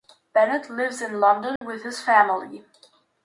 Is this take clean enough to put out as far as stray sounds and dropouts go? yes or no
no